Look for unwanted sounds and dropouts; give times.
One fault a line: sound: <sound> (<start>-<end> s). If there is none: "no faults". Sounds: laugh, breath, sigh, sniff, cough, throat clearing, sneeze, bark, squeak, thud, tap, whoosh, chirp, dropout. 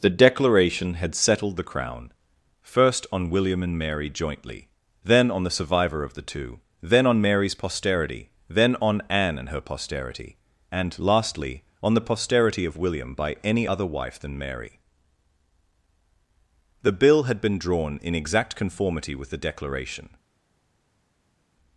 no faults